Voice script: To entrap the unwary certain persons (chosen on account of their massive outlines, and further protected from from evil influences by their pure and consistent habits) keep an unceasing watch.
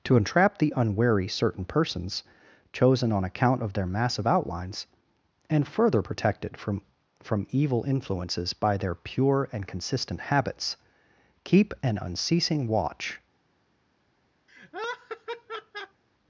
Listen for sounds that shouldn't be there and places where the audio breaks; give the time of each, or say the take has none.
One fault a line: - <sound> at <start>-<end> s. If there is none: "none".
- laugh at 14.5-16.0 s